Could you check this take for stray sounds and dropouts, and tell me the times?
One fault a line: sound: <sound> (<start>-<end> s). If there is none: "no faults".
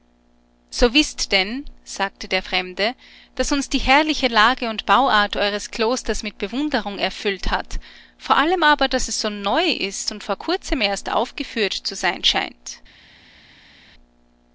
no faults